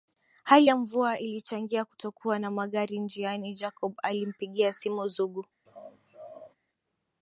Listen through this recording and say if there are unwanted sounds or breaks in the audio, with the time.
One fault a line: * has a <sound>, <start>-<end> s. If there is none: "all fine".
* has a laugh, 5.7-6.6 s